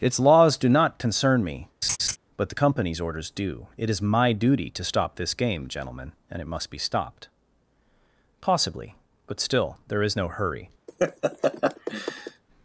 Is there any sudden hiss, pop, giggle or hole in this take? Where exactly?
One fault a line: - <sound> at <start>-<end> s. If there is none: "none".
- laugh at 1.8-2.2 s
- laugh at 10.9-12.4 s